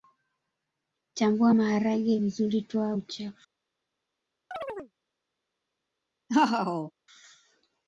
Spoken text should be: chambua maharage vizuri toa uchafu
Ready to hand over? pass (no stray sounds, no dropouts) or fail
fail